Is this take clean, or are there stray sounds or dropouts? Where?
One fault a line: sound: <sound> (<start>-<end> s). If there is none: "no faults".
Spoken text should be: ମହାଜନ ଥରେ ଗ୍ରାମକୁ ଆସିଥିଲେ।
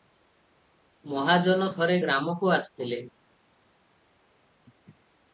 no faults